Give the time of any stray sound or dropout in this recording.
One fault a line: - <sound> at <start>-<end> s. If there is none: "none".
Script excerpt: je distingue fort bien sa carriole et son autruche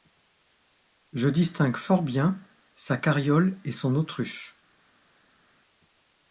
none